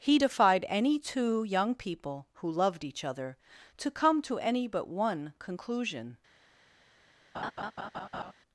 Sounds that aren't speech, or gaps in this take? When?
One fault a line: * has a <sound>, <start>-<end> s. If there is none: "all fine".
* has a laugh, 7.3-8.3 s